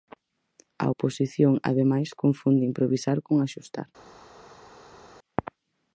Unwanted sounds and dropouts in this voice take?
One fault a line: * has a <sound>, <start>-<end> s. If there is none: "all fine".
all fine